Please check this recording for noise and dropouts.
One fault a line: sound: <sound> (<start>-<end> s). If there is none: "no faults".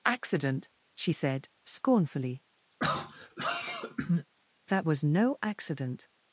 sound: throat clearing (2.7-4.3 s)